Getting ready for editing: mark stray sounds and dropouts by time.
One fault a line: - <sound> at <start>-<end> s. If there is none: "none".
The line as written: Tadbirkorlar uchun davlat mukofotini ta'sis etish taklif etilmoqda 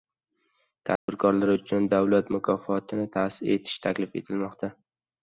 - dropout at 1.0-1.1 s